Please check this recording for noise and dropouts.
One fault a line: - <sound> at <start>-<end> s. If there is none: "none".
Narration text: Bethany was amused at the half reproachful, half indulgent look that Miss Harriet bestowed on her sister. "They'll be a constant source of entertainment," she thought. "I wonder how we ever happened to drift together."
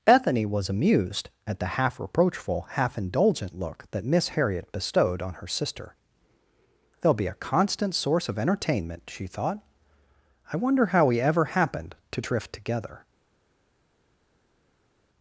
none